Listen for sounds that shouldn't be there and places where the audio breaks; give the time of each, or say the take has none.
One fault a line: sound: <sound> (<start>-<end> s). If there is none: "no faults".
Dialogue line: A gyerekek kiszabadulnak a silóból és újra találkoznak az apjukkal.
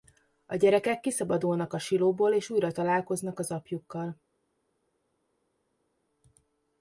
no faults